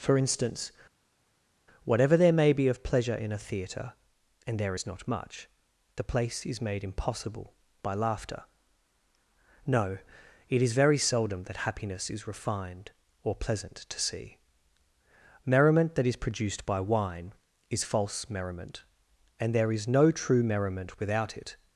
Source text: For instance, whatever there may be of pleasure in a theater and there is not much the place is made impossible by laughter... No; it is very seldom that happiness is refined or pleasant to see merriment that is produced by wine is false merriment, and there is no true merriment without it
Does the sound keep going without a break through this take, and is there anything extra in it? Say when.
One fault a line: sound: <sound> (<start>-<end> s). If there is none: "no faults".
no faults